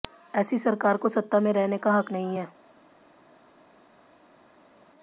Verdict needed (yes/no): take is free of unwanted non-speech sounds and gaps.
yes